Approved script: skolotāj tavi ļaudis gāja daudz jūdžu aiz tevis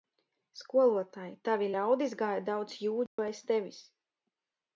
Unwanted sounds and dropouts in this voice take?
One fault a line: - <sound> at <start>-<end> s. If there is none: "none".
- dropout at 3.1-3.2 s